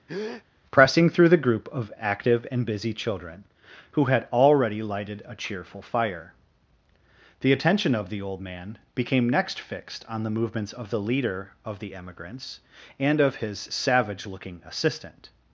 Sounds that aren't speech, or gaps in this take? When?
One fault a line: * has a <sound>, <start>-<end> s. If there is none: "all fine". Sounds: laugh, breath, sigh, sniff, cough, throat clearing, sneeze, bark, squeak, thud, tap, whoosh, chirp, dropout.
* has a breath, 0.1-0.4 s